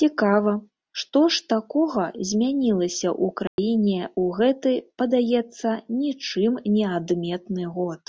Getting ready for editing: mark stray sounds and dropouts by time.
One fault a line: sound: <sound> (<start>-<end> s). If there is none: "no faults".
sound: dropout (3.5-3.6 s)